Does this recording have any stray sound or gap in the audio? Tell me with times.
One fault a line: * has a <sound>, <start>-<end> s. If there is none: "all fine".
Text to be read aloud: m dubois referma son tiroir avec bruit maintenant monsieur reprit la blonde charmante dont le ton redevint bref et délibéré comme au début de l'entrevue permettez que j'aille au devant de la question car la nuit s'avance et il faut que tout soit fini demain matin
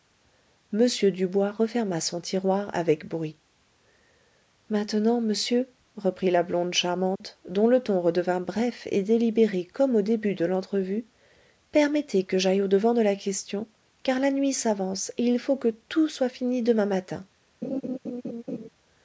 * has a dropout, 7.2-7.2 s
* has a laugh, 17.6-18.7 s